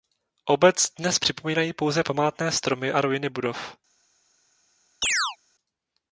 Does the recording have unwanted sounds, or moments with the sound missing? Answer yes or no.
yes